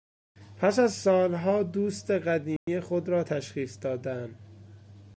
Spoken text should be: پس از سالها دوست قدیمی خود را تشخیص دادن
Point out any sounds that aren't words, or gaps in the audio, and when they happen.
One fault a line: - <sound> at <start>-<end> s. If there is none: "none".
- dropout at 2.6-2.7 s